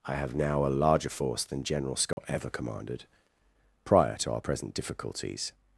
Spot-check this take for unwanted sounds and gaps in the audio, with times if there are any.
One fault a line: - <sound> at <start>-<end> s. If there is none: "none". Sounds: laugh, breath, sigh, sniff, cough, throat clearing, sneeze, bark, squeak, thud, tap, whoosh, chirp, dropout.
- dropout at 2.1-2.2 s